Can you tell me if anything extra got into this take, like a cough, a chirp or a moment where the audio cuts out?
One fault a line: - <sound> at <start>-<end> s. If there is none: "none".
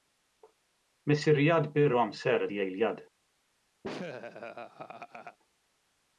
- laugh at 3.8-5.4 s